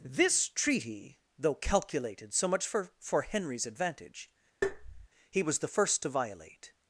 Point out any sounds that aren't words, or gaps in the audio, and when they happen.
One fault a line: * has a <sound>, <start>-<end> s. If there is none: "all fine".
* has a tap, 4.6-5.1 s